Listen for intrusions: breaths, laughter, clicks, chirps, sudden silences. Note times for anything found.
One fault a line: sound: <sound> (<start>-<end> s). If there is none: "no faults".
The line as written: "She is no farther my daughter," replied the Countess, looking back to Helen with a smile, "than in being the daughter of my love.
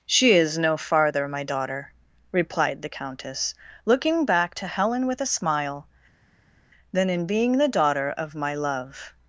no faults